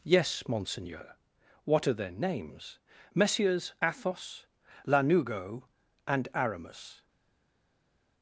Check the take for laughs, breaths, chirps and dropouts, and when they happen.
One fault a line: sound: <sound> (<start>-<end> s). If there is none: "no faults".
no faults